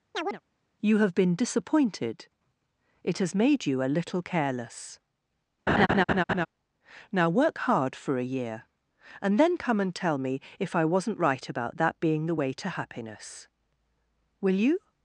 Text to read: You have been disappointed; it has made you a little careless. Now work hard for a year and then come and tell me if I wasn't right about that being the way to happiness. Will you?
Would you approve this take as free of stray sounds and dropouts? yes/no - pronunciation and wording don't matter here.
no